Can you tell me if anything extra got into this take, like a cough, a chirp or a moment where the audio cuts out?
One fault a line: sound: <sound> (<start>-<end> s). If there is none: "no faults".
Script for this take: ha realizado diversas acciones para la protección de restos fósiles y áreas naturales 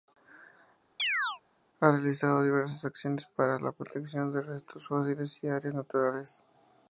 sound: chirp (1.0-1.4 s)